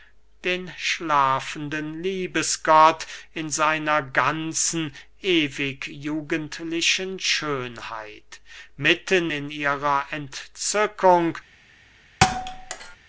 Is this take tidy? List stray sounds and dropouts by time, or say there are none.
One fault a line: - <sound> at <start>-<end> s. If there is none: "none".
- thud at 12.2-13.0 s